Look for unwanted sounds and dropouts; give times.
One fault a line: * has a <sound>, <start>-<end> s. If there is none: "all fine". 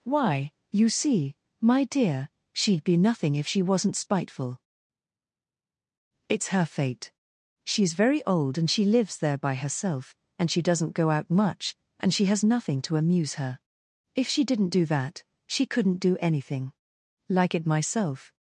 all fine